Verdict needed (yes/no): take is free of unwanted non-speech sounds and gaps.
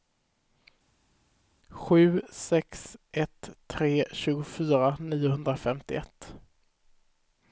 yes